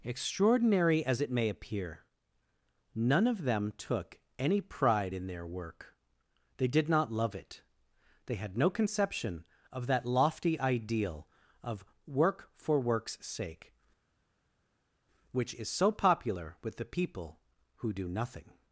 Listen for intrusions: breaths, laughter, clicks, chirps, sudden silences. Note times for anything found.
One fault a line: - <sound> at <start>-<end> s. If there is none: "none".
none